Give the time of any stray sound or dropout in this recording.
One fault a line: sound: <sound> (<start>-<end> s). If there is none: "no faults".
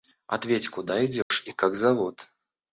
sound: dropout (1.2-1.3 s)